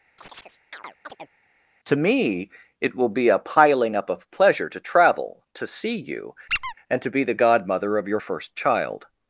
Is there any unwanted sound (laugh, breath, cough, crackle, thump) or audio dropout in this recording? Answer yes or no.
yes